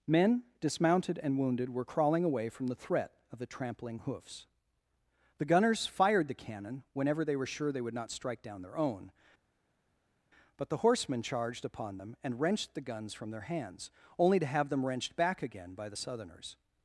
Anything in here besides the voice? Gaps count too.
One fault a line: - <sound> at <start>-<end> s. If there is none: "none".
none